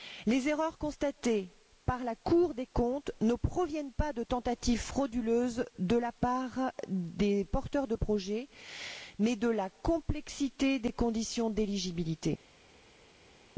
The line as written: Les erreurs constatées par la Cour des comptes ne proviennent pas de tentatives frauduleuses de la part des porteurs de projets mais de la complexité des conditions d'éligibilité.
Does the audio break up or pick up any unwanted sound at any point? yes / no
no